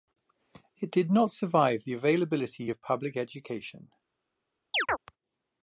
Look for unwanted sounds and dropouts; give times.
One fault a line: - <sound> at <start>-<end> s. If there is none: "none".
- chirp at 4.7-5.0 s